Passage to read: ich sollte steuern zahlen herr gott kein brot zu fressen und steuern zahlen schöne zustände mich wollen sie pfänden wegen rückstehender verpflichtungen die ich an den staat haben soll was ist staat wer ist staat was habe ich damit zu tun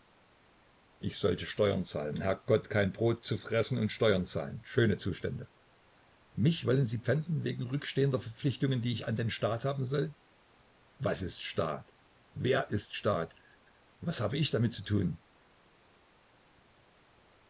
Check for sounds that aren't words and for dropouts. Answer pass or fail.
pass